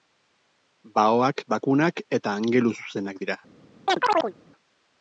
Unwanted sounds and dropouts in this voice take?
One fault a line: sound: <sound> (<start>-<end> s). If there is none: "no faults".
sound: chirp (3.9-4.3 s)